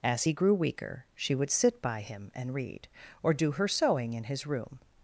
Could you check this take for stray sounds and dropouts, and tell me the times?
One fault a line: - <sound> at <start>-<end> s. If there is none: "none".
none